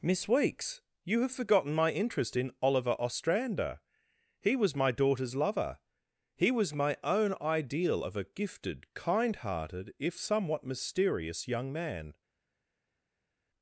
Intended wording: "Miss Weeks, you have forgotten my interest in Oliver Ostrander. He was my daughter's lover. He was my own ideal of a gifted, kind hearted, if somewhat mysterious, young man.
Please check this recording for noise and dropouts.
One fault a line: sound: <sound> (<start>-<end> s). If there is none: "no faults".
no faults